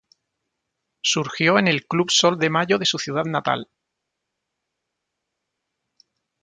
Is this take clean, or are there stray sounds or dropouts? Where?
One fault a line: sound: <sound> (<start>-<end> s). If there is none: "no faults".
no faults